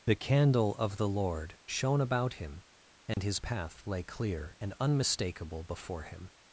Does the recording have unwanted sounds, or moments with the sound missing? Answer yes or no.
yes